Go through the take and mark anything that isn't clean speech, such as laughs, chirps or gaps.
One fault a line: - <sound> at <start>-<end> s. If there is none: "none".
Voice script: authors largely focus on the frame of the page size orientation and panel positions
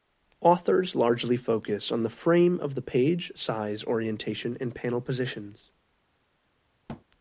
- thud at 6.9-7.0 s